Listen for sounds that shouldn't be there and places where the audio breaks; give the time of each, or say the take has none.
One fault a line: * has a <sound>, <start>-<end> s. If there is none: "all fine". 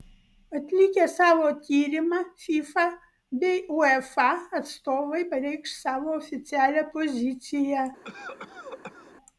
* has a cough, 8.0-9.1 s